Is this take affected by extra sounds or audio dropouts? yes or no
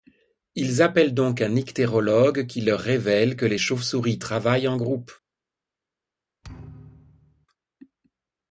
yes